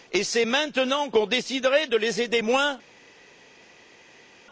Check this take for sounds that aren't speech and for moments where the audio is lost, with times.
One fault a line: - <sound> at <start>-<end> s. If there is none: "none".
none